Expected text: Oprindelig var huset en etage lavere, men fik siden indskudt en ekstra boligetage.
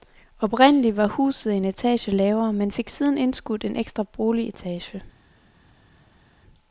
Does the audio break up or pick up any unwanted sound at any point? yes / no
no